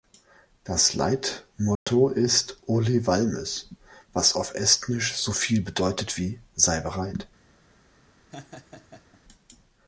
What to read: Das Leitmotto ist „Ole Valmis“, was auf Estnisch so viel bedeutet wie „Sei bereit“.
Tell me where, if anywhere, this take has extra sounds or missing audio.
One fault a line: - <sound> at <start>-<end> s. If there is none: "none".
- dropout at 1.8-1.9 s
- laugh at 8.3-9.2 s